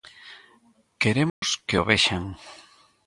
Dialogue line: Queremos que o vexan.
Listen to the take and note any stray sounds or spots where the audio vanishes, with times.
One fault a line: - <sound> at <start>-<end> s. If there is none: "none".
- dropout at 1.3-1.4 s